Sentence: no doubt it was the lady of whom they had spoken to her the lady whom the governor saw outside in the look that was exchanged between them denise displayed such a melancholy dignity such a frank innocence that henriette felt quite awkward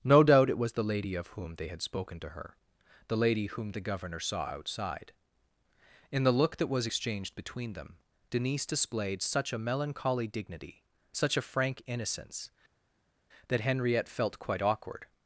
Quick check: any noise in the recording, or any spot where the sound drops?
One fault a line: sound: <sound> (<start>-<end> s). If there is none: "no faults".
no faults